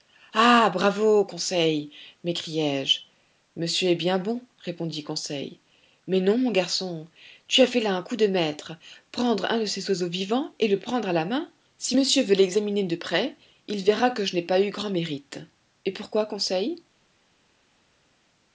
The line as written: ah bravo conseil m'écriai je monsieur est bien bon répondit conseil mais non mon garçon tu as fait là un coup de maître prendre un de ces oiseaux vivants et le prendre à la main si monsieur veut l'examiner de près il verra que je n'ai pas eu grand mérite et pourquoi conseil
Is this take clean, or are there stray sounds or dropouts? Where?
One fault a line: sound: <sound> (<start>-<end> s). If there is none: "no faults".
no faults